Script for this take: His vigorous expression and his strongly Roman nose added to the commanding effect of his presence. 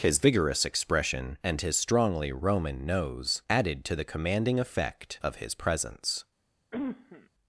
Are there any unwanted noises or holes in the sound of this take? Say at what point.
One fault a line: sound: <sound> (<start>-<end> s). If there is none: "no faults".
sound: cough (6.7-7.3 s)